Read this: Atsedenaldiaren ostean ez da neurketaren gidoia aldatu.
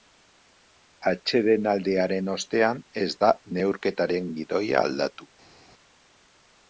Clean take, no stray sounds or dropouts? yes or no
yes